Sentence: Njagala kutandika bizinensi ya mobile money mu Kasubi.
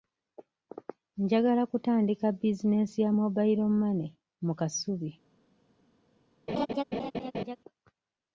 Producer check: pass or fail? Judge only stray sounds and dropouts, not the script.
fail